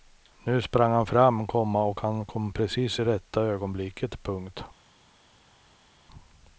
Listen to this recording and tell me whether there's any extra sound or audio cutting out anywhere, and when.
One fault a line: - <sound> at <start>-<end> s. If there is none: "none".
none